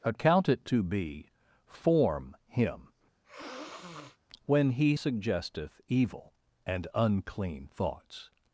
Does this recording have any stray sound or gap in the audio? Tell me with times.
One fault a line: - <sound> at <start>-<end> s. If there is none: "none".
- sniff at 3.2-4.2 s